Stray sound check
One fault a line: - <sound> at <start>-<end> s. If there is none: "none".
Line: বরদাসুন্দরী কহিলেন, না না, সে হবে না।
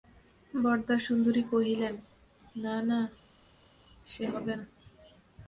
none